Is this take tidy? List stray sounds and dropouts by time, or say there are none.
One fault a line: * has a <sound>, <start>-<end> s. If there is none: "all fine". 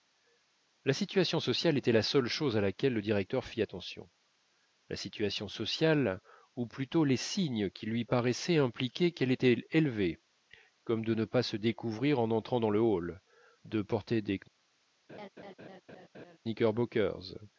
* has a laugh, 15.1-16.4 s